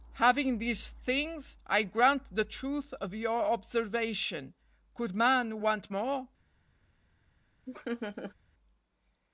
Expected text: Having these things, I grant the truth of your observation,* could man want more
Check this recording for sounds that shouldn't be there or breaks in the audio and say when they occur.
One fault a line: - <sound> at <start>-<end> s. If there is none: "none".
- laugh at 7.7-8.3 s